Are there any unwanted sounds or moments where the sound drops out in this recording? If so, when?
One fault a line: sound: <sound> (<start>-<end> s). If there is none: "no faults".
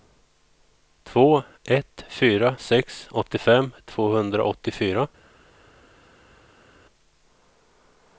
no faults